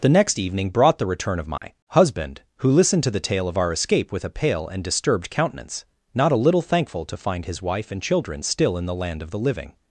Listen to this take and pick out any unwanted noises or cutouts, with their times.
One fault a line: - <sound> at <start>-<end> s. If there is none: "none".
- dropout at 1.6-1.6 s